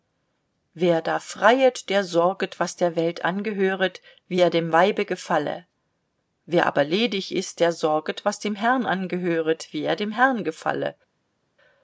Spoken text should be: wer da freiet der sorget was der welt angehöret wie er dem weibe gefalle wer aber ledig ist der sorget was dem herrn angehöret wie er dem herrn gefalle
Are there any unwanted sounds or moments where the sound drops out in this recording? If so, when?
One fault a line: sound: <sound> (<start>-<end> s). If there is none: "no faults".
no faults